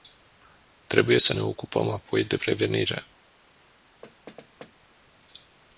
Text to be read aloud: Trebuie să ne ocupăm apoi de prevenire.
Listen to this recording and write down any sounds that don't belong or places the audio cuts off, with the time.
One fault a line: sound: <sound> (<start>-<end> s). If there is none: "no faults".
sound: thud (4.0-4.7 s)